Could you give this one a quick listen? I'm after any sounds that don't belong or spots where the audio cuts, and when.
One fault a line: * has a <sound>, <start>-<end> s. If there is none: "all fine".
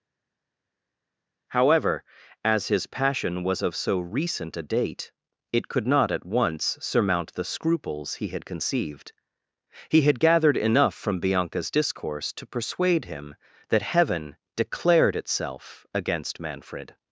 all fine